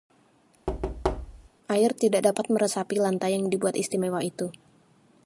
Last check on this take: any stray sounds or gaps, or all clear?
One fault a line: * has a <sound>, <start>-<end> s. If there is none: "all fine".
* has a thud, 0.7-1.5 s